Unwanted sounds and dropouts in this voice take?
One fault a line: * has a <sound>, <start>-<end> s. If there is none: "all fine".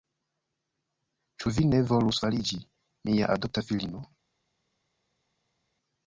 all fine